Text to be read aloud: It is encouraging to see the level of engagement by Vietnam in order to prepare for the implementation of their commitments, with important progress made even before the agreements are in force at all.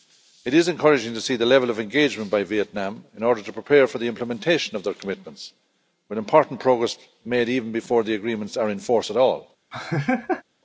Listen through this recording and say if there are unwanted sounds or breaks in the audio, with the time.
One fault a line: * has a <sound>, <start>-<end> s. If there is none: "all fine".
* has a laugh, 9.7-10.4 s